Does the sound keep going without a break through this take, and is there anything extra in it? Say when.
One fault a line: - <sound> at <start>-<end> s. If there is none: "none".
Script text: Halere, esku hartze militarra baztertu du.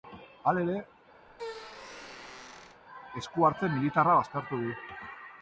- squeak at 1.3-2.8 s